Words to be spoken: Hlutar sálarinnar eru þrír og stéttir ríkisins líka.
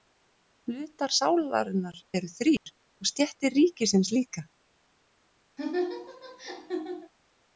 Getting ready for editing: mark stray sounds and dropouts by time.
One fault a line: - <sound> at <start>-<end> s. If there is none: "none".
- dropout at 2.6-2.7 s
- laugh at 5.6-7.1 s